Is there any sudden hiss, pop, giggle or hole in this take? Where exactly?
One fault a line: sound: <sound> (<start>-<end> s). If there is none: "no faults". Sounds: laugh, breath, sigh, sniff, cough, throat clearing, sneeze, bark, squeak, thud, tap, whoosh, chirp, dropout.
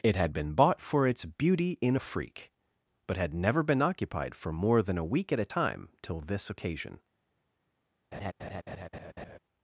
sound: laugh (8.1-9.4 s)